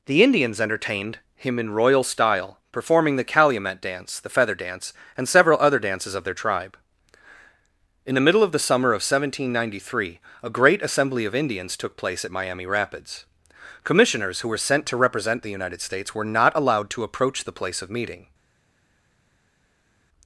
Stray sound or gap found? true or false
false